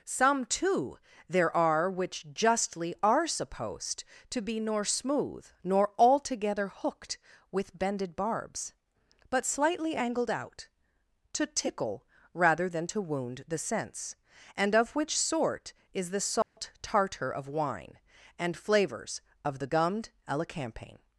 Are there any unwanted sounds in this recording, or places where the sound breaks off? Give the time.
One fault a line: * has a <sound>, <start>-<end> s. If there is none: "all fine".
* has a dropout, 16.4-16.6 s